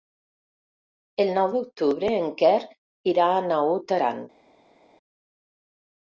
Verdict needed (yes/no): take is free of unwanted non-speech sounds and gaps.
yes